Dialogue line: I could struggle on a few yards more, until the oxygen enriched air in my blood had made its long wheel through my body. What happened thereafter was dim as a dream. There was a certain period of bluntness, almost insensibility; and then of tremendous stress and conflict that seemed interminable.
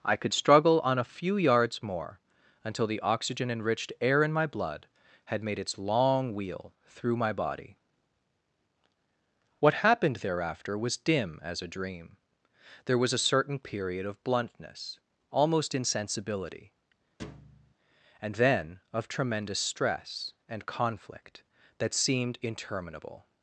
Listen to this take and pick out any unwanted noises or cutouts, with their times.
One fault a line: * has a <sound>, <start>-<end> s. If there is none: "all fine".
* has a thud, 17.2-17.7 s